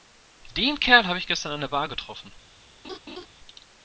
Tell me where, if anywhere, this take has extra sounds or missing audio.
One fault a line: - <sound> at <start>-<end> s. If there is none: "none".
- laugh at 2.8-3.3 s